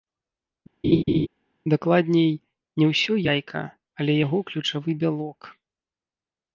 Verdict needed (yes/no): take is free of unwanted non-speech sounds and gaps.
no